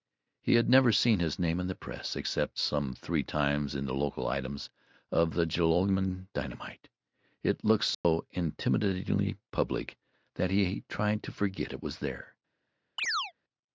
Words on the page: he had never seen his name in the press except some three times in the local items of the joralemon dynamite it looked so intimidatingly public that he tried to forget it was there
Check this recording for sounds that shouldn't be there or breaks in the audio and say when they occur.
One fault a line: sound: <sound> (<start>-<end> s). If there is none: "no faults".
sound: dropout (7.9-8.0 s)
sound: chirp (13.0-13.3 s)